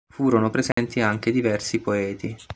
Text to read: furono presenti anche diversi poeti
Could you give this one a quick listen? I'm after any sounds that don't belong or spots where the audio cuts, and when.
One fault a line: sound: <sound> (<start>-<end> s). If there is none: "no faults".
sound: dropout (0.7-0.8 s)